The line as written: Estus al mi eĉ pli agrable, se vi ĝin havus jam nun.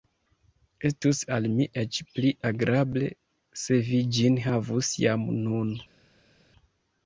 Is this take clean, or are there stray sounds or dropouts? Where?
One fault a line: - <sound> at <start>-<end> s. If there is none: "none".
none